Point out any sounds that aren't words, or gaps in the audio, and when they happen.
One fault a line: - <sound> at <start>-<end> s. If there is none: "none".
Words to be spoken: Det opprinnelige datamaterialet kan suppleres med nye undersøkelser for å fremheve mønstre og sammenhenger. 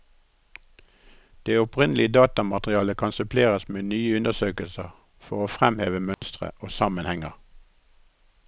- dropout at 6.1-6.2 s